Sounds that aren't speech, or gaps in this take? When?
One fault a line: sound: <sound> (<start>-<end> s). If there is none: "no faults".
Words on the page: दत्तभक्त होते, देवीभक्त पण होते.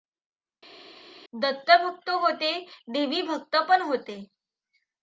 no faults